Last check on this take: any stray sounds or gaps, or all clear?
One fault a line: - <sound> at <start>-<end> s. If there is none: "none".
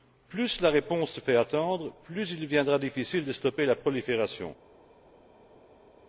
none